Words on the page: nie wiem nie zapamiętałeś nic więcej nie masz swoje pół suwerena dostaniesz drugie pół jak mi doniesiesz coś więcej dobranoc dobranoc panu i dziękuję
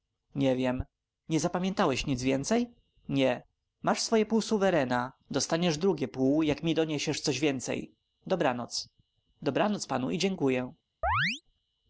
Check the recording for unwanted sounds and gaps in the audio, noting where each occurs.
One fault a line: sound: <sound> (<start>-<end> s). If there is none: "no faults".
sound: chirp (11.0-11.4 s)